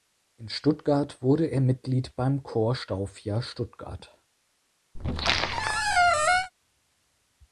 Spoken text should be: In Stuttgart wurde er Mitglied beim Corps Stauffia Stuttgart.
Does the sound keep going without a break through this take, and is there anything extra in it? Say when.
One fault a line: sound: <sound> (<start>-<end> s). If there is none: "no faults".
sound: squeak (5.0-6.5 s)